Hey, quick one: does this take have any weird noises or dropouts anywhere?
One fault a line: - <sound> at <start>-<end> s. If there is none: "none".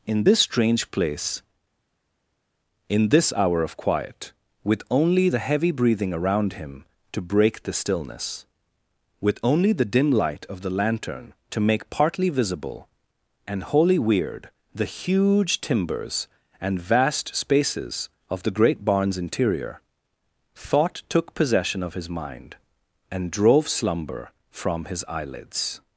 none